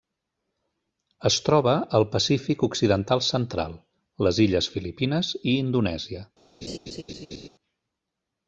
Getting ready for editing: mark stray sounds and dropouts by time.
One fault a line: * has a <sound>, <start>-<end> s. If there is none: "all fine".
* has a laugh, 6.6-7.5 s